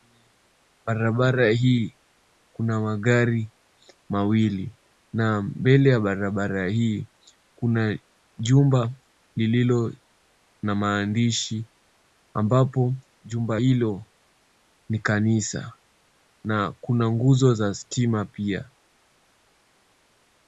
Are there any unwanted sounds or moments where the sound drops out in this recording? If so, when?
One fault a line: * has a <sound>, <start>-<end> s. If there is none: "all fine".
all fine